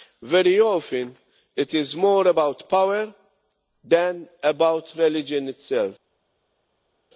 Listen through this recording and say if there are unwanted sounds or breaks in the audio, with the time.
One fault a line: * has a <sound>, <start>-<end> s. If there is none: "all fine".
all fine